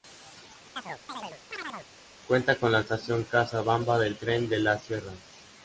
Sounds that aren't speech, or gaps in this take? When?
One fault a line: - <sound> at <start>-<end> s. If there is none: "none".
- chirp at 0.8-1.9 s